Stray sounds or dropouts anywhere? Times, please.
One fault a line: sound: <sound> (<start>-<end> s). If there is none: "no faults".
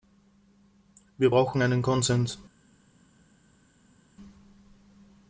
no faults